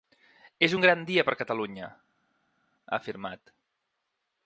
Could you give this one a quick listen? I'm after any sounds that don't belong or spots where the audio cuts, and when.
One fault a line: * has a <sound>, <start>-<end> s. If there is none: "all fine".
all fine